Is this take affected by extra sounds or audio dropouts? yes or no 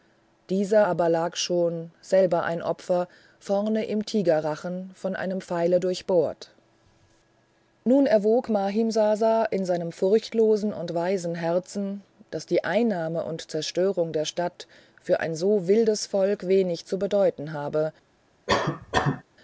yes